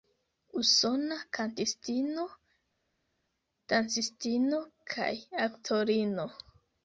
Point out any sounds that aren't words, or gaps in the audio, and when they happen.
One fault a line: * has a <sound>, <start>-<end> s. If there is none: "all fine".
all fine